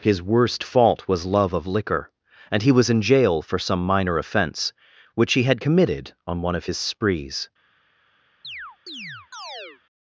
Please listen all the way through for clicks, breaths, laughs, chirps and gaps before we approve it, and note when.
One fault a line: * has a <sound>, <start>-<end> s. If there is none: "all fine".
* has a chirp, 8.4-9.8 s